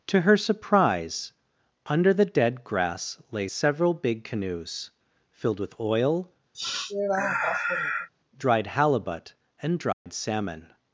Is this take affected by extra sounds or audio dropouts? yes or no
yes